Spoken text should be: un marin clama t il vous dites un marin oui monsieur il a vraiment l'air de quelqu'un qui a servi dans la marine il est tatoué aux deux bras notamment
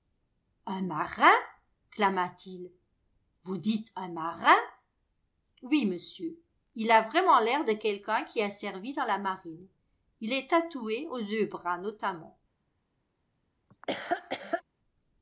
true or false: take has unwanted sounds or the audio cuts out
true